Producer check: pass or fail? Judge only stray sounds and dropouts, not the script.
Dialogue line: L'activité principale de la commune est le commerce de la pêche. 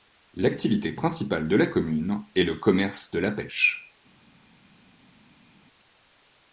pass